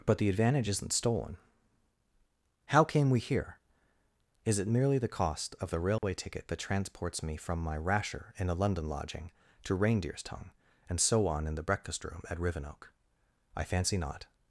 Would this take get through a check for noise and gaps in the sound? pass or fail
fail